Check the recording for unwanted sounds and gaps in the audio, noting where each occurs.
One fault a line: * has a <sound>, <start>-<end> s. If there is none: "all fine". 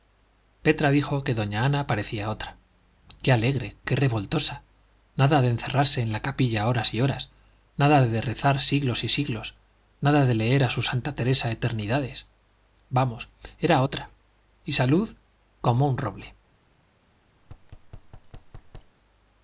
* has a thud, 17.4-19.0 s